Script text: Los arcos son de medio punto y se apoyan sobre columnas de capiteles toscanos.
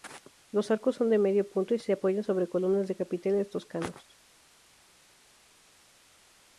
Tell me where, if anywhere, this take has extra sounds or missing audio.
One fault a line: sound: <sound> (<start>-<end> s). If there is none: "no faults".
no faults